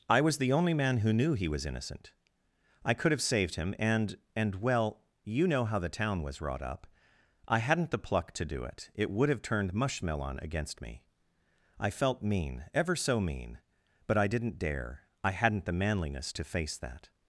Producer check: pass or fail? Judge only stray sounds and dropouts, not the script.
pass